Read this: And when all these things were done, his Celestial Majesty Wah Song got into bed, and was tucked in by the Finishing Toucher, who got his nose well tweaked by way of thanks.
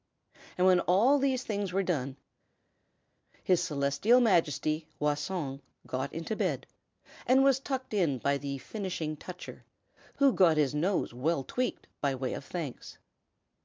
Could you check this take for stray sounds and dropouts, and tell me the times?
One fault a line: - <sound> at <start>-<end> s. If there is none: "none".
none